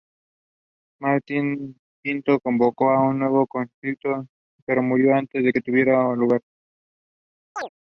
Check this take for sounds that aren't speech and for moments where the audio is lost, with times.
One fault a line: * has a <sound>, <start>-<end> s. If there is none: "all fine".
* has a chirp, 7.6-7.7 s